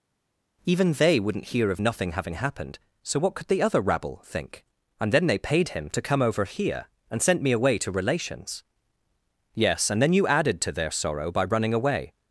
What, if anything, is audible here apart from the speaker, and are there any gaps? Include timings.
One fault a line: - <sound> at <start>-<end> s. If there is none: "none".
none